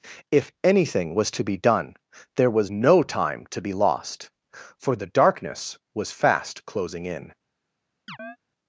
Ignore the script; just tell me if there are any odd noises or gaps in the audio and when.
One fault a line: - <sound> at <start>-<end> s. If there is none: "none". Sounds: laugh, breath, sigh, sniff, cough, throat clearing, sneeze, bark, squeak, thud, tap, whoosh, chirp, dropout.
- chirp at 8.1-8.4 s